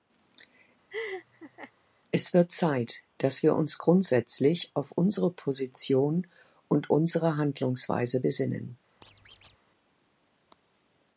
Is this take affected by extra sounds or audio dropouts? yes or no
yes